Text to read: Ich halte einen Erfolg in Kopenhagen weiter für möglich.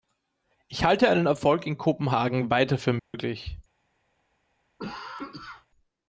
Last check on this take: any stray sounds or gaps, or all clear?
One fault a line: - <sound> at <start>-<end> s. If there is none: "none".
- dropout at 3.0-3.1 s
- cough at 4.8-5.7 s